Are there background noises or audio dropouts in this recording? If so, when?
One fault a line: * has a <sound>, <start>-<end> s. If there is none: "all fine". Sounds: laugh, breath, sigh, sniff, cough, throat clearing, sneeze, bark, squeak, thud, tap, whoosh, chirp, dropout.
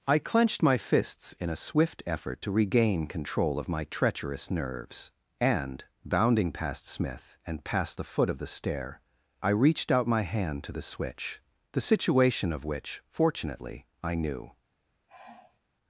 * has a sigh, 15.1-15.6 s